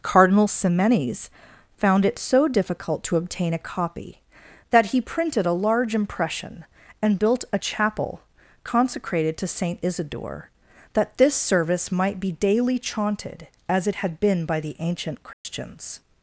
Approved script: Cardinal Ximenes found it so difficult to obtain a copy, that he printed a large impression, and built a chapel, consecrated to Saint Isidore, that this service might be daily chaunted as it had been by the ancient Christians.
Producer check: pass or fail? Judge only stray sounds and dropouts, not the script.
fail